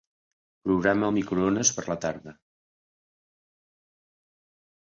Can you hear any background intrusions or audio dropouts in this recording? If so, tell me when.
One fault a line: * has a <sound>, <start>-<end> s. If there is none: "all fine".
all fine